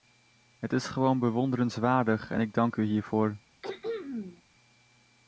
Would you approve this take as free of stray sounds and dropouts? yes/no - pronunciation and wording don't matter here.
no